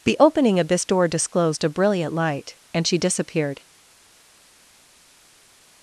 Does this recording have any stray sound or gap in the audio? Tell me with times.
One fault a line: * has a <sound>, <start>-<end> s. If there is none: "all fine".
all fine